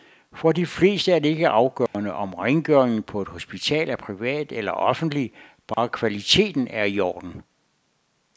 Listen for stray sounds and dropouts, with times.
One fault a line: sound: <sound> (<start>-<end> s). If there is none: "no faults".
sound: dropout (1.9-1.9 s)
sound: dropout (5.7-5.8 s)